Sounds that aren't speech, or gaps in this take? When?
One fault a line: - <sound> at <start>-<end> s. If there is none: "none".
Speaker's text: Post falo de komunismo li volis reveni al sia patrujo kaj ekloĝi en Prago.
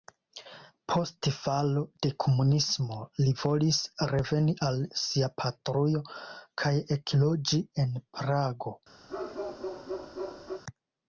- bark at 9.1-10.6 s